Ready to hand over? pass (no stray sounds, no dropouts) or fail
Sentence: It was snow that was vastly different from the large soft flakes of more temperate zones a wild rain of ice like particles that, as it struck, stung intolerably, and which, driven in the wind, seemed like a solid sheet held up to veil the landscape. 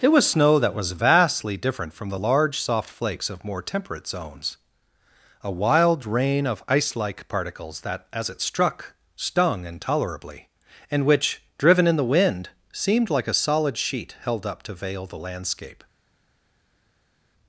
pass